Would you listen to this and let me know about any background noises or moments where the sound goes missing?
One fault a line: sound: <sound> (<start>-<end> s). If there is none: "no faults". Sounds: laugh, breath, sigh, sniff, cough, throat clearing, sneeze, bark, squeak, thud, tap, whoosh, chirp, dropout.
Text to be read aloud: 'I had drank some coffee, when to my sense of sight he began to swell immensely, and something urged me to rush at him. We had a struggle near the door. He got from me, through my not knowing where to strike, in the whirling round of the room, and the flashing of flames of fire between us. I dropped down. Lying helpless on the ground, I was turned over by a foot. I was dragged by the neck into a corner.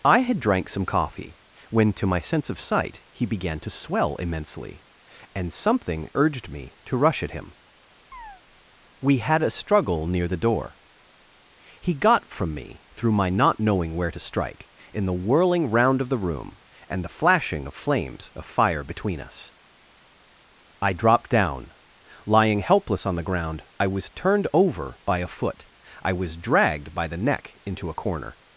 sound: chirp (8.1-8.4 s)